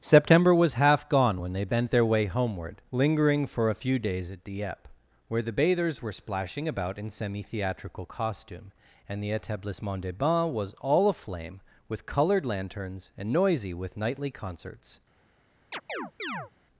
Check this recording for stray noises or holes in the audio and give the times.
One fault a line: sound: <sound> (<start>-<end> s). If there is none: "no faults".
sound: chirp (15.7-16.5 s)